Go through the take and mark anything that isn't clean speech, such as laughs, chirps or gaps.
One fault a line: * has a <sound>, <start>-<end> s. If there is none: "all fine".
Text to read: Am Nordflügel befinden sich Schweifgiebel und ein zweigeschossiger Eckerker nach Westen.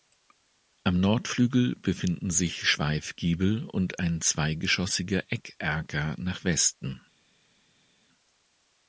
all fine